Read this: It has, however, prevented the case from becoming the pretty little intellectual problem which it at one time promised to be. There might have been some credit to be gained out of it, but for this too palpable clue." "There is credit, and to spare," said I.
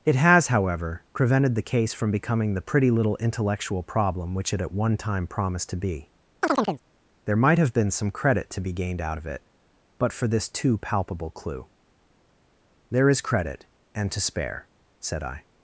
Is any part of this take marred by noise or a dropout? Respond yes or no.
yes